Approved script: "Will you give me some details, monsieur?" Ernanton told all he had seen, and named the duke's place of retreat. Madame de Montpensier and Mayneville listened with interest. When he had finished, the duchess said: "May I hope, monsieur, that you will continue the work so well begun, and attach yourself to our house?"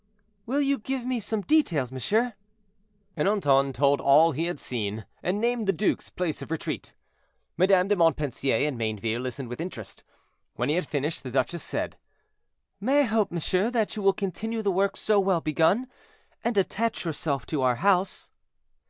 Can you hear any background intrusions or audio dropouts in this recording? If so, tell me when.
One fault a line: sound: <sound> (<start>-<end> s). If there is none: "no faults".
no faults